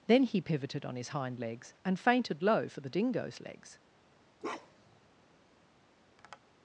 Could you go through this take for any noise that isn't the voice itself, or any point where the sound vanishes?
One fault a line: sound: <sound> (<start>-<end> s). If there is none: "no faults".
sound: bark (4.4-5.0 s)
sound: tap (6.2-6.4 s)